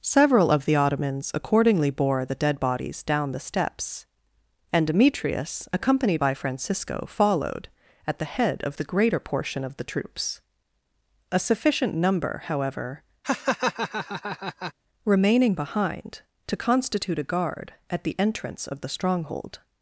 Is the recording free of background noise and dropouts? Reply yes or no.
no